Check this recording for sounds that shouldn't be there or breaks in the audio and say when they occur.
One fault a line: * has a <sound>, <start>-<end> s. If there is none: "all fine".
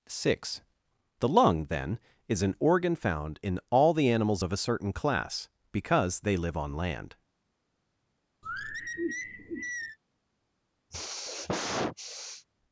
* has a sigh, 8.4-10.0 s
* has a sigh, 10.9-12.5 s